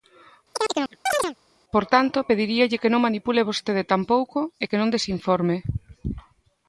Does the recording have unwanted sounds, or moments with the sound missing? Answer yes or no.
yes